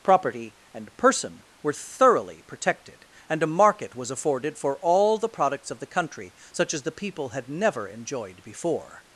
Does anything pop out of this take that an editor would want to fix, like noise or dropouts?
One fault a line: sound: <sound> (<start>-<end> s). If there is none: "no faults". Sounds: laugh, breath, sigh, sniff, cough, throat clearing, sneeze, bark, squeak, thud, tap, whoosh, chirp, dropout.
no faults